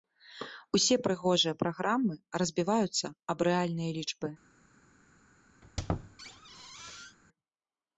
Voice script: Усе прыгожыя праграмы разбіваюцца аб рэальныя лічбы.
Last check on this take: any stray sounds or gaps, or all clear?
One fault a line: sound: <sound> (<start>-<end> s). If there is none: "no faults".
sound: squeak (5.6-7.2 s)